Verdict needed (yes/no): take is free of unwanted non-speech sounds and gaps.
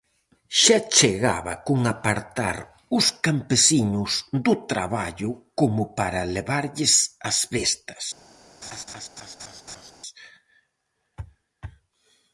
no